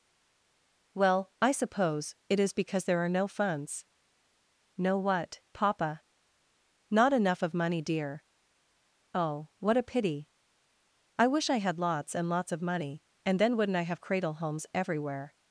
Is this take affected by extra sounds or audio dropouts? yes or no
no